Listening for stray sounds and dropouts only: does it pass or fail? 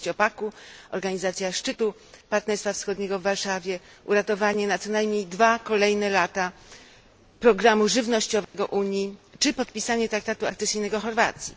fail